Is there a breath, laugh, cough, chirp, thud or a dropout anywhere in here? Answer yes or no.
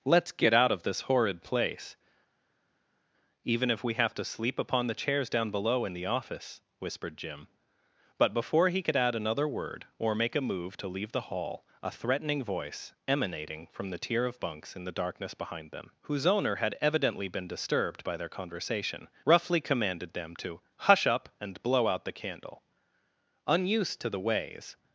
no